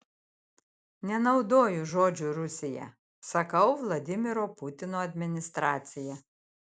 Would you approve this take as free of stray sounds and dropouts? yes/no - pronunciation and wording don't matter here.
yes